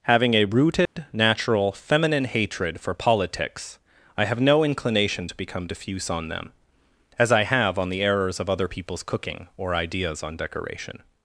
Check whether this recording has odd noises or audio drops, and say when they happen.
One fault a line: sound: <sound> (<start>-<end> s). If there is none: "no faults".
sound: dropout (0.9-1.0 s)